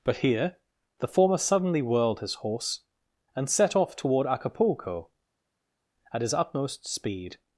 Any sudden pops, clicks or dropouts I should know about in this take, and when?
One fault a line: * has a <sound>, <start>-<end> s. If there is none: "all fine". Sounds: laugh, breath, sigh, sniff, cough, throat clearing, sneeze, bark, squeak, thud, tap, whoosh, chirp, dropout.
all fine